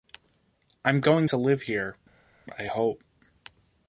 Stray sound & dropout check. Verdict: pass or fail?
pass